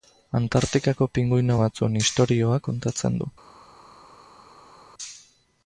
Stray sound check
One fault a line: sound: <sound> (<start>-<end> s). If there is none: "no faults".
no faults